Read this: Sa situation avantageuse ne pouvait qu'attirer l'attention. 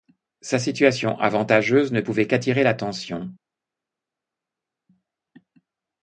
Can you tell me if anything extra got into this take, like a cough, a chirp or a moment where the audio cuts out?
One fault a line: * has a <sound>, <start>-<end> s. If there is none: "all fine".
all fine